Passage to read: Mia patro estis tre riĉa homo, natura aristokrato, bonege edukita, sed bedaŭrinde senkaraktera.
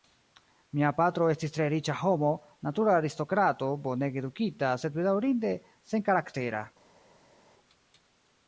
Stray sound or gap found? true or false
false